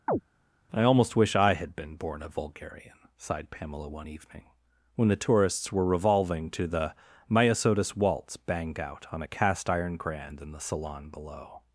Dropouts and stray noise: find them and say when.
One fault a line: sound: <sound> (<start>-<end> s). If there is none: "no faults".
sound: chirp (0.1-0.2 s)